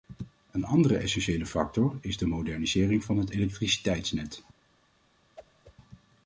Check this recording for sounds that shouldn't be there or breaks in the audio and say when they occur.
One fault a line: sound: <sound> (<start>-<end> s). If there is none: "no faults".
sound: whoosh (5.4-5.7 s)